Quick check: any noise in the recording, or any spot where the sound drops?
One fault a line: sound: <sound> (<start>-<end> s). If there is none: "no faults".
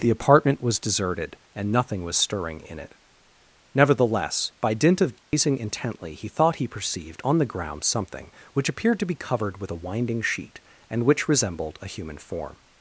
sound: dropout (5.2-5.3 s)